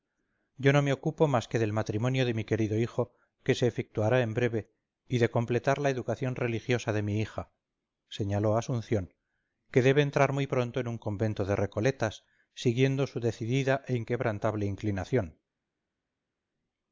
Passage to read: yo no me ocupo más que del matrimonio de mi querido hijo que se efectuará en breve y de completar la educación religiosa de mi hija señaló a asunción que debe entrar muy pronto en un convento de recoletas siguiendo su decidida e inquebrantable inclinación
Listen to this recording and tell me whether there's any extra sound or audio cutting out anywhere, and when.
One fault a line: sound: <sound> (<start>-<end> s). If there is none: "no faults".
no faults